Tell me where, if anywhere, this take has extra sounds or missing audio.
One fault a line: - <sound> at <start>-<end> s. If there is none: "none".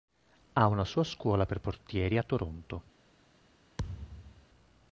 - thud at 3.8-4.5 s